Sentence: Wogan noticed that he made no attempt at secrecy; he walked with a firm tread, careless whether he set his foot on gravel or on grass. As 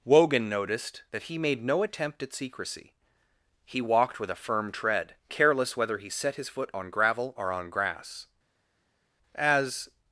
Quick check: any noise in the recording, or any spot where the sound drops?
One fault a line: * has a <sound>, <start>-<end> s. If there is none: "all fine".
all fine